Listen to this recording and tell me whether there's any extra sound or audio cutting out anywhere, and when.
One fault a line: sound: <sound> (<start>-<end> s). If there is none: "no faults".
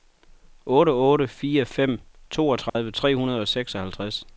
sound: dropout (2.7-2.8 s)